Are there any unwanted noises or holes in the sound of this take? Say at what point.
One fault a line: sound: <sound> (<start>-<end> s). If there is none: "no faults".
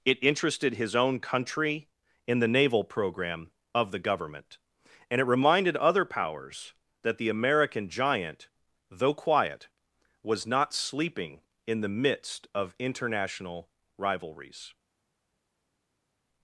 no faults